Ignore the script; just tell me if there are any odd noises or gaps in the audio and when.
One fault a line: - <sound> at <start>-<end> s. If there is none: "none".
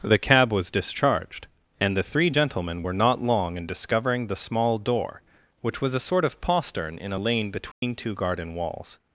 - dropout at 7.7-7.8 s